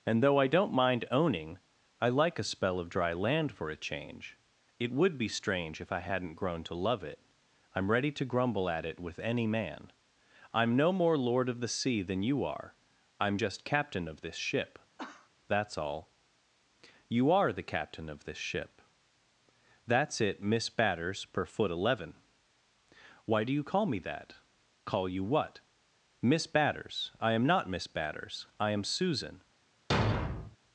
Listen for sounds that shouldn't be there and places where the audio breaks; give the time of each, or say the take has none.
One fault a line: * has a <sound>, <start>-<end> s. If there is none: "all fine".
* has a cough, 15.0-15.3 s
* has a thud, 29.9-30.6 s